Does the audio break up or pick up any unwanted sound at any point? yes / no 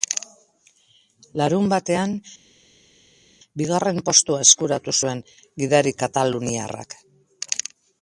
no